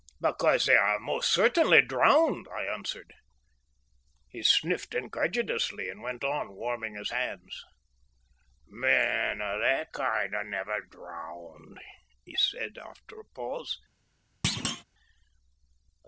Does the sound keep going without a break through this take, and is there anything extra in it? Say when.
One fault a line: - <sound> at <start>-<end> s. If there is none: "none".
- thud at 14.4-14.8 s